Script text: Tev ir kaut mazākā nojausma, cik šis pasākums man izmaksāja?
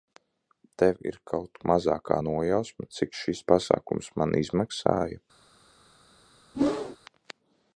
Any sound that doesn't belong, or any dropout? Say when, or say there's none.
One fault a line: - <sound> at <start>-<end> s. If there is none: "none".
- whoosh at 6.5-7.0 s